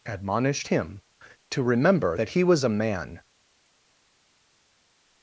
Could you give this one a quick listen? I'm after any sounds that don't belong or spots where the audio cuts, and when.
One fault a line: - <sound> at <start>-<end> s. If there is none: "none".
none